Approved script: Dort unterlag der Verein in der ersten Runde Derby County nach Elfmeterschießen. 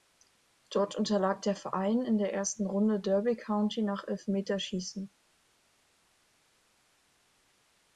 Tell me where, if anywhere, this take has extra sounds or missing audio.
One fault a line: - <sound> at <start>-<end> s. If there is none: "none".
none